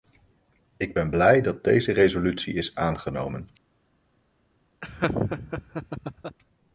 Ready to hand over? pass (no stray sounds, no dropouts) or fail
fail